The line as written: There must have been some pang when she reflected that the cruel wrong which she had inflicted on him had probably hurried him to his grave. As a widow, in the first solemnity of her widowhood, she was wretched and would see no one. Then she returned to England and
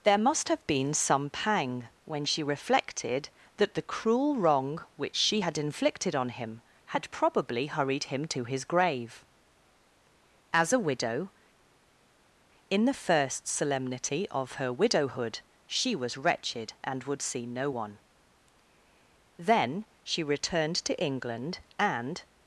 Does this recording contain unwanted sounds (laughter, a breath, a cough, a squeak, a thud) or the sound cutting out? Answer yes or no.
no